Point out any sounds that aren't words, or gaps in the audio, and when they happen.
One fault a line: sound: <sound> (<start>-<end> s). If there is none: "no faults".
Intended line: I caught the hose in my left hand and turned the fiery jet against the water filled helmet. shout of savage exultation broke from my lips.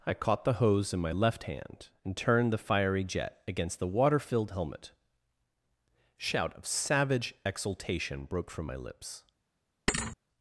sound: thud (9.9-10.2 s)